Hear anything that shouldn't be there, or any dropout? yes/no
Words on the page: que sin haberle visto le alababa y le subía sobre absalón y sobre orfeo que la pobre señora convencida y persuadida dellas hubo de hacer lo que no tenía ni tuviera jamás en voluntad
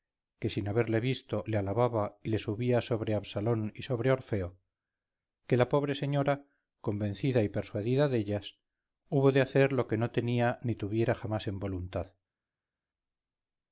no